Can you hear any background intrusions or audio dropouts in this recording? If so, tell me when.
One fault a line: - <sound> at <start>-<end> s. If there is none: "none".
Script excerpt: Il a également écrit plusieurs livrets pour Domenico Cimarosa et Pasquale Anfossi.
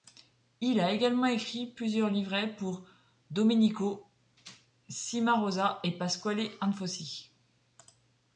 none